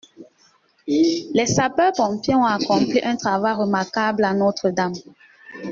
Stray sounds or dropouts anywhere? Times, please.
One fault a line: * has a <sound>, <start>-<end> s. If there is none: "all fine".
all fine